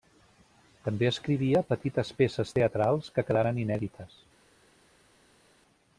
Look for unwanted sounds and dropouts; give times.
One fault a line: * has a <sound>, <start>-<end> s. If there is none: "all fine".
all fine